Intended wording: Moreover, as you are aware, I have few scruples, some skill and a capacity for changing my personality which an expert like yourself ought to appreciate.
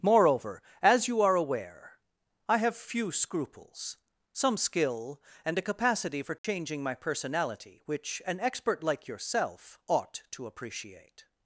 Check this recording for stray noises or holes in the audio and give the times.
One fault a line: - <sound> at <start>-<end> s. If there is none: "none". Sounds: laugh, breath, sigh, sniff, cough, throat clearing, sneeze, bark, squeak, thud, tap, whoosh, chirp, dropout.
- dropout at 6.4-6.4 s